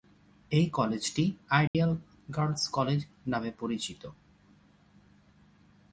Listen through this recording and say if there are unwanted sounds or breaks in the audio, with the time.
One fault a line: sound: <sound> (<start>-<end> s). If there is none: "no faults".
sound: dropout (1.7-1.7 s)